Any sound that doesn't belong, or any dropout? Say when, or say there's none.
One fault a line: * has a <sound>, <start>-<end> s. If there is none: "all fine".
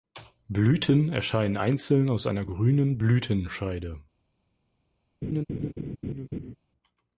* has a laugh, 5.2-6.6 s